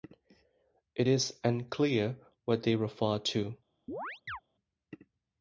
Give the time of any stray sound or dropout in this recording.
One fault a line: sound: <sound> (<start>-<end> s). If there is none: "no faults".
sound: chirp (3.9-4.4 s)